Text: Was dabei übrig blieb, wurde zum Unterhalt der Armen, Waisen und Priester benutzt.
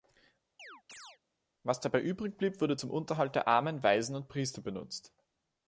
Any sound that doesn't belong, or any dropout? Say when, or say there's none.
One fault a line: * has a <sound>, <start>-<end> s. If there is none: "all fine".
* has a chirp, 0.6-1.2 s